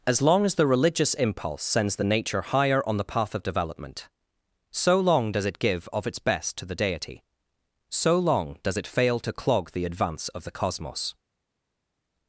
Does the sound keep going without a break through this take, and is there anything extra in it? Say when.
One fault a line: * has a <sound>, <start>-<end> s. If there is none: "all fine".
all fine